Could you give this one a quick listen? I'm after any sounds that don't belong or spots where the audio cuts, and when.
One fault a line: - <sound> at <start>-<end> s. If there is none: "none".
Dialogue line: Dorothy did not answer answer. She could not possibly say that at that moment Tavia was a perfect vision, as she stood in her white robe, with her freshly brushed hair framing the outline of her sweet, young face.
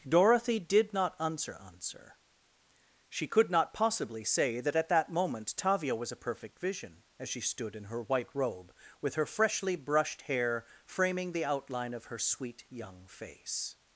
none